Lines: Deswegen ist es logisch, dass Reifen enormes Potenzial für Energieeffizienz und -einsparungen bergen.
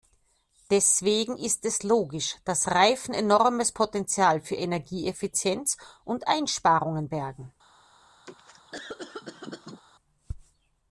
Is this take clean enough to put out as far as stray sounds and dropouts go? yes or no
no